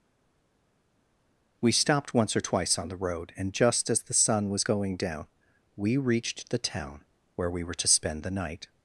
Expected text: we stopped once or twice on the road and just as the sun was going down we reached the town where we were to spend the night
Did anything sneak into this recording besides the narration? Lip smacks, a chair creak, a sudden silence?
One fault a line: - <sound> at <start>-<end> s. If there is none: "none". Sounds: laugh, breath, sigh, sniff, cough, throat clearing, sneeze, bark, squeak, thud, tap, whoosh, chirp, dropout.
none